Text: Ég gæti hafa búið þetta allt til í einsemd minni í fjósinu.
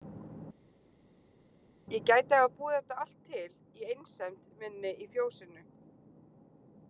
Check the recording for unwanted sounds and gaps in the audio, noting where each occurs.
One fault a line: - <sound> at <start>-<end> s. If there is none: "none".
none